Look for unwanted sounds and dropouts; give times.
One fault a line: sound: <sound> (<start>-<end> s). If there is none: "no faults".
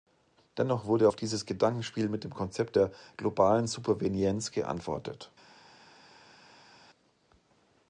no faults